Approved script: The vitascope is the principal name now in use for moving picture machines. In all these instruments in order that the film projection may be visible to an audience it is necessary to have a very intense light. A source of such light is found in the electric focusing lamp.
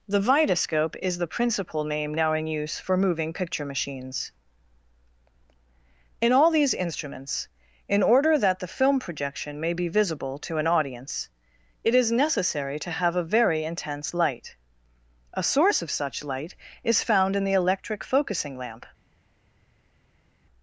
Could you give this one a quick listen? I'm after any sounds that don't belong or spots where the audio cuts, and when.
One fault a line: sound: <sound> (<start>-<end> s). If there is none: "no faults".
no faults